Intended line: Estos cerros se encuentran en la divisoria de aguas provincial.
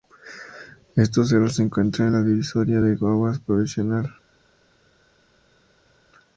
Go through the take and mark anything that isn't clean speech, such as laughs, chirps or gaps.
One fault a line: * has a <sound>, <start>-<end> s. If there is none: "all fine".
all fine